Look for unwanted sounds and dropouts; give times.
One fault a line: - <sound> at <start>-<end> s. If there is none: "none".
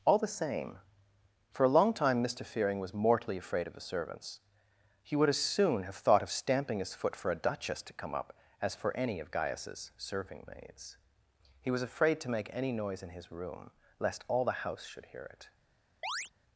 - chirp at 16.0-16.3 s